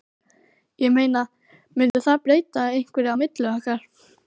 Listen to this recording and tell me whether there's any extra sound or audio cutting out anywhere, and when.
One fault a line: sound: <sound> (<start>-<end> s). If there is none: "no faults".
sound: dropout (1.9-1.9 s)